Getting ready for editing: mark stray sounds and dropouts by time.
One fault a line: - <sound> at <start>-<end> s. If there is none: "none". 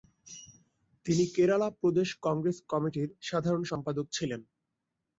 none